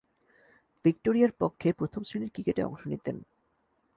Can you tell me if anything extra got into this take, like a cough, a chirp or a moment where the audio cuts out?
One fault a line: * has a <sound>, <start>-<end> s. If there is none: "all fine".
all fine